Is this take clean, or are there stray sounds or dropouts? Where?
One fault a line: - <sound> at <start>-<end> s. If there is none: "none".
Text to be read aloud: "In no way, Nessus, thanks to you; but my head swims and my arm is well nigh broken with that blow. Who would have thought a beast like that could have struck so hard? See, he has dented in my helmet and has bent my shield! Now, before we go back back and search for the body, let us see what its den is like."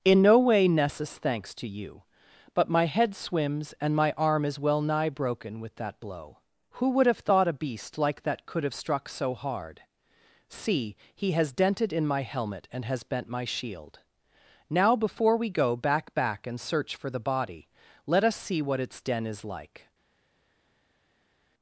none